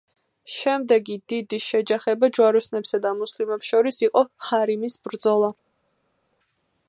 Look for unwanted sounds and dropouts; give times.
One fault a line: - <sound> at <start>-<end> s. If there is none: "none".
none